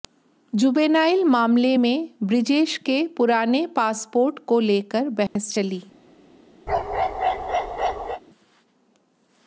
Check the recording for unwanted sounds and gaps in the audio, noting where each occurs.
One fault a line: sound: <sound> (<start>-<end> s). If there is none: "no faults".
sound: dropout (5.3-5.4 s)
sound: bark (6.7-8.2 s)